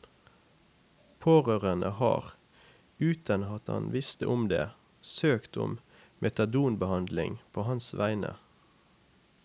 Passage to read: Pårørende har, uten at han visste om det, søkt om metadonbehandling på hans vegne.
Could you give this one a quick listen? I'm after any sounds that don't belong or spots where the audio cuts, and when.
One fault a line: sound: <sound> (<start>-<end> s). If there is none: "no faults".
no faults